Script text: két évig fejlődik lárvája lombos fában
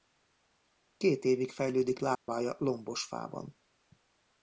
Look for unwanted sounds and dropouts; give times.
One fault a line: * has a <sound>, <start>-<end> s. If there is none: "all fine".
* has a dropout, 2.1-2.3 s